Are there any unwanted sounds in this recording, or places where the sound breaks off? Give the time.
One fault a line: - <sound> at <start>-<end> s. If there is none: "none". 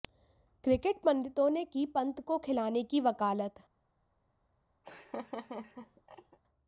- laugh at 4.8-6.4 s